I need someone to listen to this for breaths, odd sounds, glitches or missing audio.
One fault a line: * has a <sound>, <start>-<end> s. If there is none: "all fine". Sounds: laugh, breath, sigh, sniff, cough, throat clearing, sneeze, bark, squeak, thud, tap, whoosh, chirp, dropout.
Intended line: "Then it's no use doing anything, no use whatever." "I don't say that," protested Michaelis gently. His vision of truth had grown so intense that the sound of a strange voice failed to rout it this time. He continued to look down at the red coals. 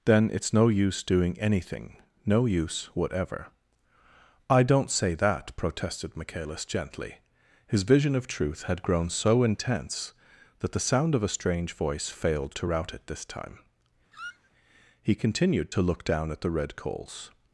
* has a squeak, 14.1-14.5 s